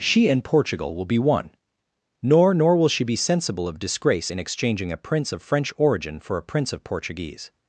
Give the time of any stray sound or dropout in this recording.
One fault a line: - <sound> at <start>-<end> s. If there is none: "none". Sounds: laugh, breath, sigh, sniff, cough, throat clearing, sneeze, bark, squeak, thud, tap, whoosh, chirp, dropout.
none